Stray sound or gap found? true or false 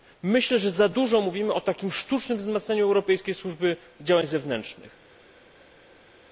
false